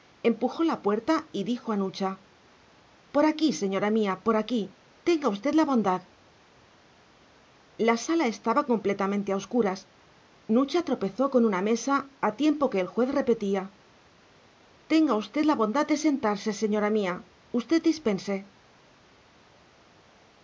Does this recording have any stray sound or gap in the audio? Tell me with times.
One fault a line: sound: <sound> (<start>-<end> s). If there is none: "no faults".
no faults